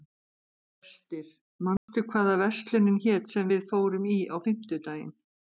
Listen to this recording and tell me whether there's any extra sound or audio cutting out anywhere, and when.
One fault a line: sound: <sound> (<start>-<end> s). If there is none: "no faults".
sound: dropout (1.8-1.9 s)